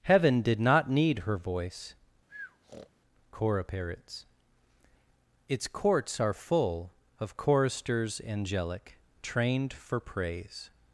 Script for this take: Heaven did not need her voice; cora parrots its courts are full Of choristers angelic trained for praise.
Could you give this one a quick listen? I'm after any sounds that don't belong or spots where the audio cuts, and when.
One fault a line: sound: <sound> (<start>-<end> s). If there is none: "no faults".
sound: breath (2.3-2.9 s)